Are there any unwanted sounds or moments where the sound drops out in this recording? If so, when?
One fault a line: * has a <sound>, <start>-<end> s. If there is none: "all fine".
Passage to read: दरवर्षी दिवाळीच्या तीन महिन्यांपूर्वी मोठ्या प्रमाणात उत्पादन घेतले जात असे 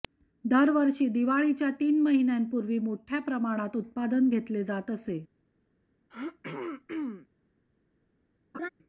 * has a throat clearing, 6.1-7.3 s
* has a laugh, 8.5-8.7 s